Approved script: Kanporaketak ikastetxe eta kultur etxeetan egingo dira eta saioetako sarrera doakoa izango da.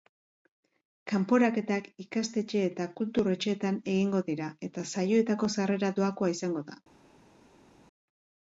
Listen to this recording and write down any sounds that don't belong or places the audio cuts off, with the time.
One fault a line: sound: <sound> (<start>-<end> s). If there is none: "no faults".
no faults